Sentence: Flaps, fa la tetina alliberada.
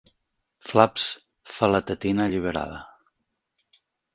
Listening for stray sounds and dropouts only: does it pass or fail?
pass